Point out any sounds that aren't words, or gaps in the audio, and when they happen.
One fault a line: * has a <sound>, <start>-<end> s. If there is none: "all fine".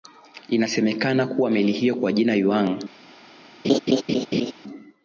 * has a laugh, 3.6-4.5 s